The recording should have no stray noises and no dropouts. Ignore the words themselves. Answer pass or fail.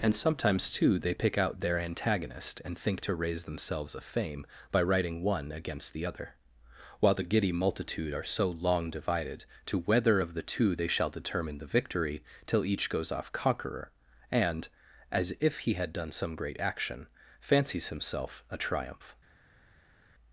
pass